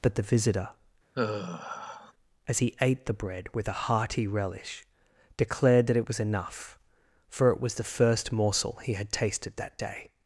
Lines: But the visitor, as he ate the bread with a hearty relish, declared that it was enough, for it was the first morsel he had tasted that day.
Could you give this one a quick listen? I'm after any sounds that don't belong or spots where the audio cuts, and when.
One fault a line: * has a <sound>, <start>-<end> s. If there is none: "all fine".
* has a sigh, 1.1-2.1 s